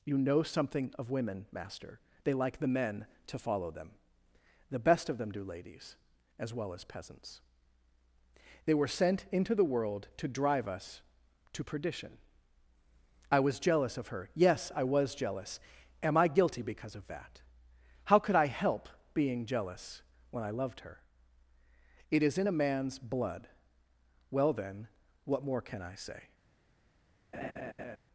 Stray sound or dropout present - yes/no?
yes